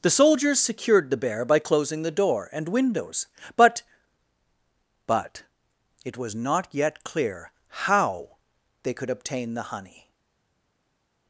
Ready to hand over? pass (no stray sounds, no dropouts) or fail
pass